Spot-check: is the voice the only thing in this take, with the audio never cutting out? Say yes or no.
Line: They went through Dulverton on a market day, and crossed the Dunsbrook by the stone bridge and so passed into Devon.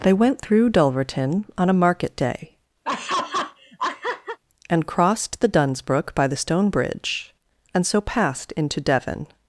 no